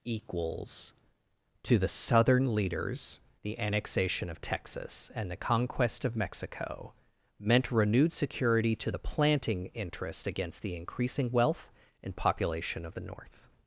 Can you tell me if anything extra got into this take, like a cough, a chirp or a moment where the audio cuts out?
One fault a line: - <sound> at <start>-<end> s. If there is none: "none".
none